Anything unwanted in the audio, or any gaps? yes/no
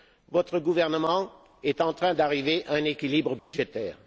yes